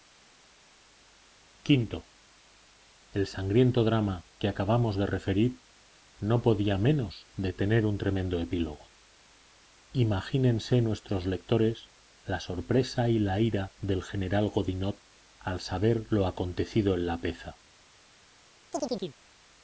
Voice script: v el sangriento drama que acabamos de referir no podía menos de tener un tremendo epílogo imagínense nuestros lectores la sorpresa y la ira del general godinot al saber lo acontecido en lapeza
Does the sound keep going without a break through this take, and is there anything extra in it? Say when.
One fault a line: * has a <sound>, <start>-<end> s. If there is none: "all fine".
* has a chirp, 18.7-19.2 s